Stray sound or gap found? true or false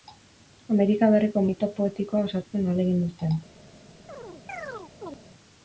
true